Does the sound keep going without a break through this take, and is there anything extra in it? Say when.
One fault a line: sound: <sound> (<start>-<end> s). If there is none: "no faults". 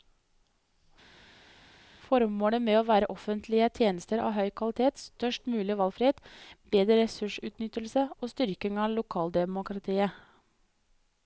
no faults